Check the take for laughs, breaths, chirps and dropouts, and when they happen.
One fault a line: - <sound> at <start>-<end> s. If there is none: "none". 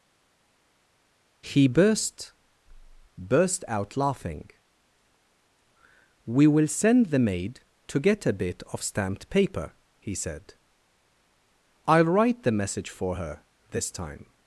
none